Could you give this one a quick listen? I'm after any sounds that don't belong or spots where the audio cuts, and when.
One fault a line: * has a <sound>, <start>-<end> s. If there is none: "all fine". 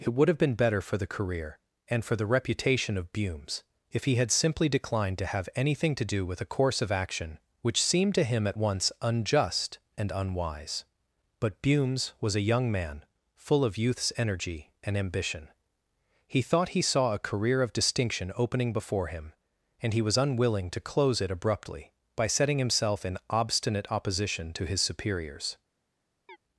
* has a chirp, 26.3-26.4 s